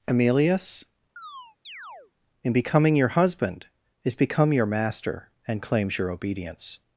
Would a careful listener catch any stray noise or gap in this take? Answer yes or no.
yes